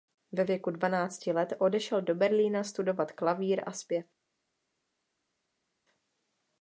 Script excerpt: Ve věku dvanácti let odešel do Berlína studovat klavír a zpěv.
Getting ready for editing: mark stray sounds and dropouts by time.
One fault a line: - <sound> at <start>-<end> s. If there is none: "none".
none